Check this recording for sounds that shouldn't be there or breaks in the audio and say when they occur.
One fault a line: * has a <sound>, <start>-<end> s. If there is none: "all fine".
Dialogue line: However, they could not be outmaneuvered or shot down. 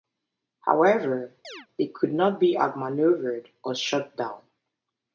* has a chirp, 1.4-1.7 s